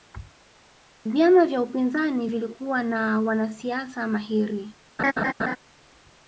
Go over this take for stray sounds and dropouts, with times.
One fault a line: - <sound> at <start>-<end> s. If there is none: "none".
- laugh at 5.0-5.6 s